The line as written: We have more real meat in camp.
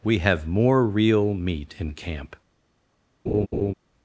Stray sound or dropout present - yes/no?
yes